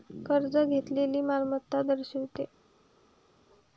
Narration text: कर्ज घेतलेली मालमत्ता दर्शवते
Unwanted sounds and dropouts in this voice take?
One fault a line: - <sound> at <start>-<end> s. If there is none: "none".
none